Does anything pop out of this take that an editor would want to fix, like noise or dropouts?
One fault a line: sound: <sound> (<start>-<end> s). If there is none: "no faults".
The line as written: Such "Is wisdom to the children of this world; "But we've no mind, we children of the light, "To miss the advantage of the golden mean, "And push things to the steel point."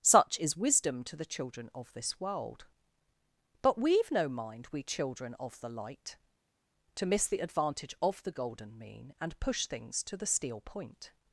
no faults